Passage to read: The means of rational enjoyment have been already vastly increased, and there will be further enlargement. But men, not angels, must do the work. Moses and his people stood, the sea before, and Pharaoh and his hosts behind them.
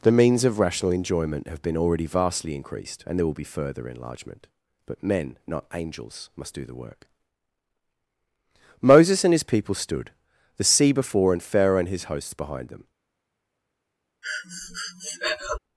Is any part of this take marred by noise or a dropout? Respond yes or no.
yes